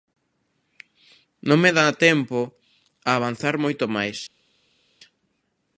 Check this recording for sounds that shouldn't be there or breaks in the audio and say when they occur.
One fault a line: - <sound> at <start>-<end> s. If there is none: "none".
none